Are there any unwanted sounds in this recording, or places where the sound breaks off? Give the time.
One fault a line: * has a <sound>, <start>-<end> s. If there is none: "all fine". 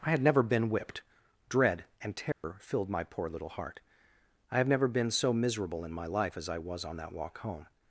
* has a dropout, 2.3-2.4 s